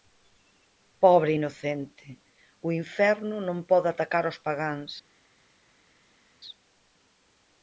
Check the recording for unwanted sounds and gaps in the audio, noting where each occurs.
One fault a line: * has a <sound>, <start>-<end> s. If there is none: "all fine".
all fine